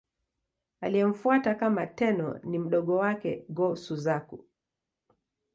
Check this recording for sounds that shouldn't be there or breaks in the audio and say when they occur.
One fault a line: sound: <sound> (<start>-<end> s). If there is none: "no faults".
no faults